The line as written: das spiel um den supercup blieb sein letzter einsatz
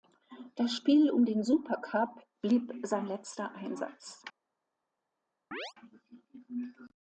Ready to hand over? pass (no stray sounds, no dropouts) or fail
fail